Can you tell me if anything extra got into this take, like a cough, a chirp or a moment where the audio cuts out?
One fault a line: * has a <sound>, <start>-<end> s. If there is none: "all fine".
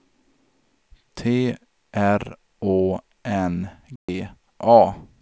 * has a dropout, 4.0-4.1 s